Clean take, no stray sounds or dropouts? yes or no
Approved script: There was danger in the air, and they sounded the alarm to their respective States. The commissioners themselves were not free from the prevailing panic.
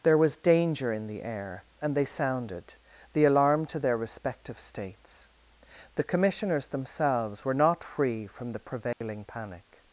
no